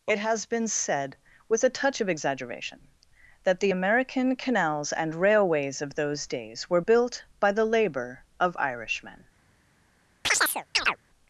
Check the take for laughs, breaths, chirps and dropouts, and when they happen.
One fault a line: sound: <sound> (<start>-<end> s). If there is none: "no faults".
sound: chirp (10.2-11.0 s)